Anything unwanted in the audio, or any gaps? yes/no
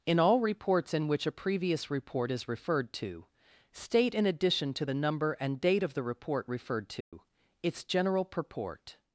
yes